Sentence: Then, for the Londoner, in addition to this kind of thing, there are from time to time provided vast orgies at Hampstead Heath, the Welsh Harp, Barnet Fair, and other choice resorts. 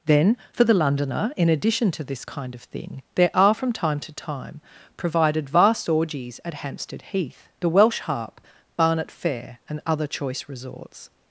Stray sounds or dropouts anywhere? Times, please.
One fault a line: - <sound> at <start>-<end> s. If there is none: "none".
none